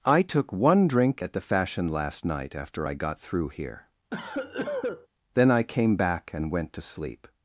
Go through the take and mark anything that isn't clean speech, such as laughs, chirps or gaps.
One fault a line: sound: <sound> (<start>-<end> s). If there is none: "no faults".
sound: cough (4.1-5.1 s)